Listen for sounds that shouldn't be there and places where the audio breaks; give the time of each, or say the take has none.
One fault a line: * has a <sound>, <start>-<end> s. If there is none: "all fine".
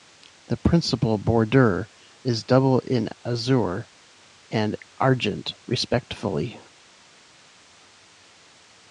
all fine